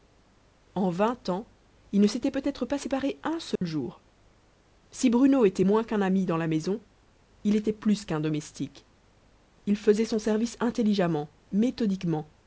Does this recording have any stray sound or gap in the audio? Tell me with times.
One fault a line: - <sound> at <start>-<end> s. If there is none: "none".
- dropout at 3.6-3.6 s